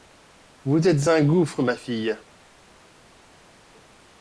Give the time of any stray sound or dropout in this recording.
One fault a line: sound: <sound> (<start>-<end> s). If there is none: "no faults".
no faults